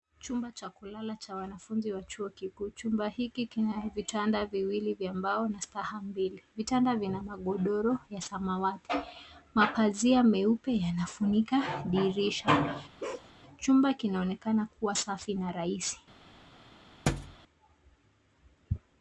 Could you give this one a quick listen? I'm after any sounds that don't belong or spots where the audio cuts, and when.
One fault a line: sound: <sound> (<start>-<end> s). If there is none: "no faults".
sound: bark (13.0-13.3 s)
sound: thud (17.1-17.4 s)